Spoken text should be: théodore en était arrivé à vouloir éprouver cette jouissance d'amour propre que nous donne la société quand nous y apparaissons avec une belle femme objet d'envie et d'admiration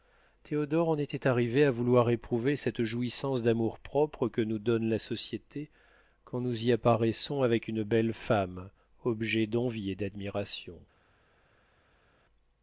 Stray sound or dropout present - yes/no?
no